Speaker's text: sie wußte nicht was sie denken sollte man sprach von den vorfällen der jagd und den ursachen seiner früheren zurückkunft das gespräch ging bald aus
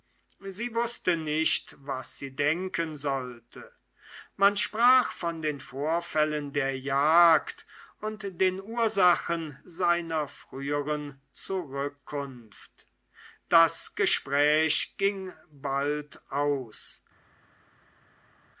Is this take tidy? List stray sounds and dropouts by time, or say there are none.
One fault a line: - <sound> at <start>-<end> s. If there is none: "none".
none